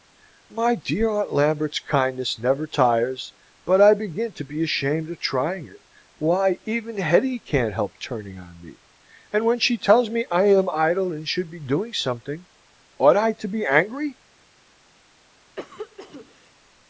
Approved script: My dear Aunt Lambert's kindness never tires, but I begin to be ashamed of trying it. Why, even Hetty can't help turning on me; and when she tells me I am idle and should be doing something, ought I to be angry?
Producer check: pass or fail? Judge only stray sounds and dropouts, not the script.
fail